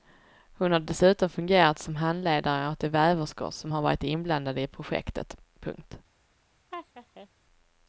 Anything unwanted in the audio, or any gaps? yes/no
yes